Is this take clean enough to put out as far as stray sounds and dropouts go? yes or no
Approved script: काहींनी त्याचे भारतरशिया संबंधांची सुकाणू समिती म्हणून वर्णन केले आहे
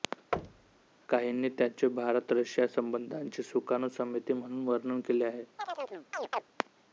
no